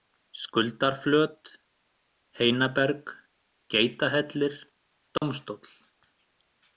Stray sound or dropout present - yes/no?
yes